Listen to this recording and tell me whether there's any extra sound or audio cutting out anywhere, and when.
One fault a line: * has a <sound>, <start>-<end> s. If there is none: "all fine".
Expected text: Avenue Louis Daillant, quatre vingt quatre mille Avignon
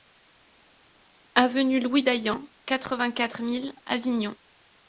all fine